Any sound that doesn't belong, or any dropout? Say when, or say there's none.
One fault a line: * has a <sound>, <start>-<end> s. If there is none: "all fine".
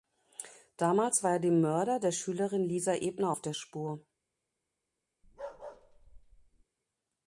* has a bark, 5.2-6.6 s